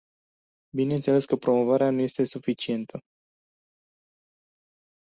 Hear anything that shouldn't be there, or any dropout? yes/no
no